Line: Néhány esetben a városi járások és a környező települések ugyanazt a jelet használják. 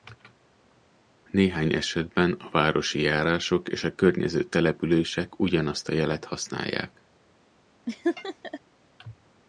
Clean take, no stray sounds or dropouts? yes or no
no